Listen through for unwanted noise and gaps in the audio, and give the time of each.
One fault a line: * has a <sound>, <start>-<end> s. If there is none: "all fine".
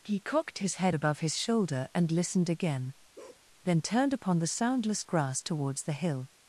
* has a bark, 3.2-3.5 s